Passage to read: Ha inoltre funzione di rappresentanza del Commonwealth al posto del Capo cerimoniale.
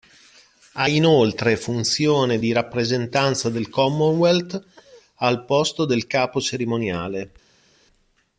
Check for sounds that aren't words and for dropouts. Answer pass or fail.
pass